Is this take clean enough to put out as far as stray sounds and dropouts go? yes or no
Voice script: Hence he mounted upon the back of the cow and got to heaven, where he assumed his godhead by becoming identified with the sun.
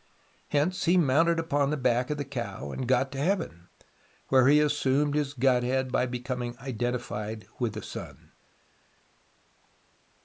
yes